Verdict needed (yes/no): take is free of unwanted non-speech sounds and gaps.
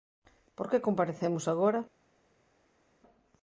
yes